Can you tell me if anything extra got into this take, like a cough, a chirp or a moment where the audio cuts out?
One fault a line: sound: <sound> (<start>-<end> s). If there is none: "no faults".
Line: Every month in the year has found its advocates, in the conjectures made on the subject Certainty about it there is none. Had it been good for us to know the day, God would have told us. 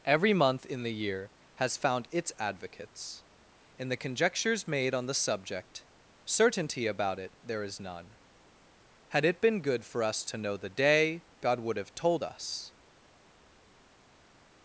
no faults